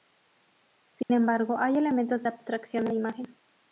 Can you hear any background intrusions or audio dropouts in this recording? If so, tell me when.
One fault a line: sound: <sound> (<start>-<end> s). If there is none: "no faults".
sound: dropout (1.0-1.1 s)